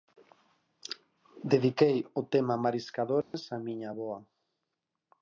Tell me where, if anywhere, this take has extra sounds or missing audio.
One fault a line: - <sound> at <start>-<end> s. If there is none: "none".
- dropout at 3.2-3.3 s